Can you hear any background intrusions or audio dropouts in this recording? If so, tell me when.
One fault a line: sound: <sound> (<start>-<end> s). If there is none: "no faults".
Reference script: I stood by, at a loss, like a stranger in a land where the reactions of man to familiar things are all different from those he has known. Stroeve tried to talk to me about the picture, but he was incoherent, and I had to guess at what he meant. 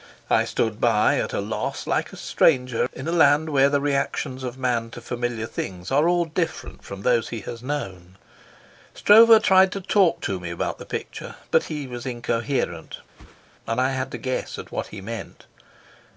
sound: whoosh (13.1-13.4 s)